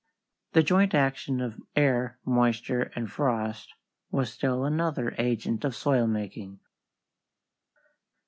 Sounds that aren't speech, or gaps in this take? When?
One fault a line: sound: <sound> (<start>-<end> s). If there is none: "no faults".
no faults